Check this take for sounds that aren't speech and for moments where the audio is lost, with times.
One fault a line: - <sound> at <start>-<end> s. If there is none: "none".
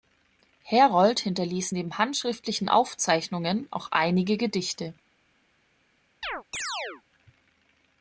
- chirp at 6.2-7.0 s